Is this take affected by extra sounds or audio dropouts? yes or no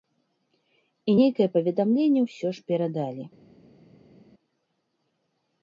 no